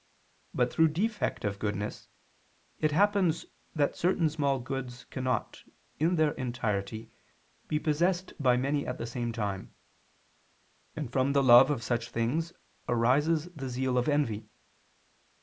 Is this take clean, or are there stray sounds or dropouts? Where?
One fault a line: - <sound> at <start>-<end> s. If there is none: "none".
none